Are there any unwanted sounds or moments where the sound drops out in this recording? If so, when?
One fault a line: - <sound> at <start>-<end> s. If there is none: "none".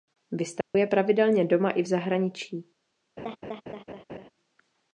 - dropout at 0.6-0.7 s
- laugh at 3.2-4.3 s